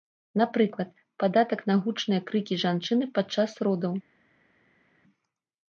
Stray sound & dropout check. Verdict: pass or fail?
pass